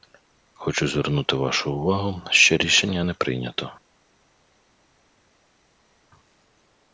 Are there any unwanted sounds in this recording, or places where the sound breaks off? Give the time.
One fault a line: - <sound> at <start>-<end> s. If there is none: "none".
none